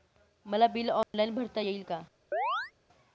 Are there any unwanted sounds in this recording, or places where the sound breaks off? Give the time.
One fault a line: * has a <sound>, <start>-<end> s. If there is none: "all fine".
* has a dropout, 1.0-1.1 s
* has a chirp, 2.3-2.7 s